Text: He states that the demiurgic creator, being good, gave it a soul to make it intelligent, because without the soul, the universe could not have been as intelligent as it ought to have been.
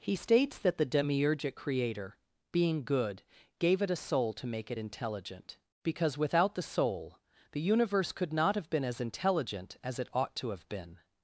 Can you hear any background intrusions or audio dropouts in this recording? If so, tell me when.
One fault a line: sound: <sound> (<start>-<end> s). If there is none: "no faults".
no faults